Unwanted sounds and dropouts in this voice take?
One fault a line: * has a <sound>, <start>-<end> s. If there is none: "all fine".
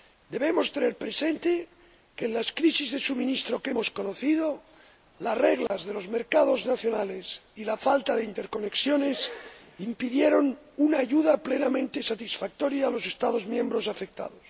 * has a dropout, 5.7-5.7 s